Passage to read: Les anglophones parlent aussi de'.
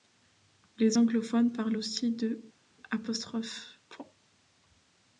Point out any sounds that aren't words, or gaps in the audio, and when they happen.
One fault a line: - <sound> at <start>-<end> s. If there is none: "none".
none